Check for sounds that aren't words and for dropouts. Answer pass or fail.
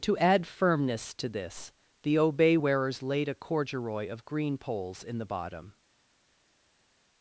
pass